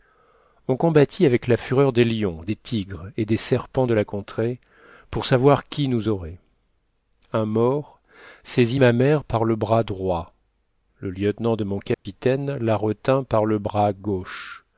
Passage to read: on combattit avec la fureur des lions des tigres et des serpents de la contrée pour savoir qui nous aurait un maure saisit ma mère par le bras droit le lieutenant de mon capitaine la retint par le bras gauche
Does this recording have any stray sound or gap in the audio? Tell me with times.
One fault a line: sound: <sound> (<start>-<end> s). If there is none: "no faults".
sound: dropout (11.9-12.1 s)